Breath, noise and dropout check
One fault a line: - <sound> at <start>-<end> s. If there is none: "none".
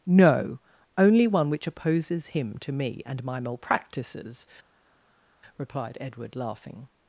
none